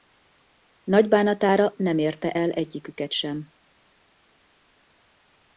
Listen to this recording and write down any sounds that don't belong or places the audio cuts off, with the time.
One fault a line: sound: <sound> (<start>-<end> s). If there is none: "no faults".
no faults